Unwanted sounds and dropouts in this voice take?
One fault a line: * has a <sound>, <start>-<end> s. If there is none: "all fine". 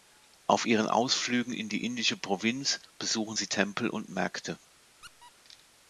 * has a squeak, 5.0-5.3 s